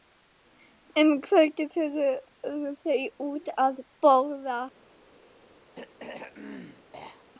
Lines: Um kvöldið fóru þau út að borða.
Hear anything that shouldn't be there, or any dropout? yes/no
yes